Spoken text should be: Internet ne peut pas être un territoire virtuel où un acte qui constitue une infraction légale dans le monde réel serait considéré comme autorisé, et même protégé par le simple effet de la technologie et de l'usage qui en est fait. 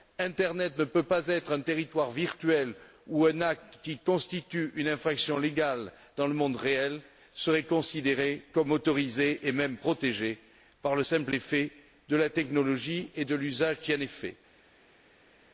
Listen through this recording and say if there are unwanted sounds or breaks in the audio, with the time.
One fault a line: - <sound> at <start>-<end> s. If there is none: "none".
none